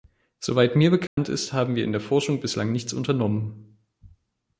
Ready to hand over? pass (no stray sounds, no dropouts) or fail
fail